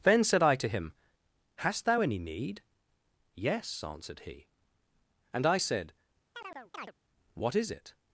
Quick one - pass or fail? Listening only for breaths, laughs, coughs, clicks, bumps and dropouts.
fail